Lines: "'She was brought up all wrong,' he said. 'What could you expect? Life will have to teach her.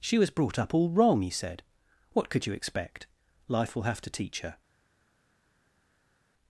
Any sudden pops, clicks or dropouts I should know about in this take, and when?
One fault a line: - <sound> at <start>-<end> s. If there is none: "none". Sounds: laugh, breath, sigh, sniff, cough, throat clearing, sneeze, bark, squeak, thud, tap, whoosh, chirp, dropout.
none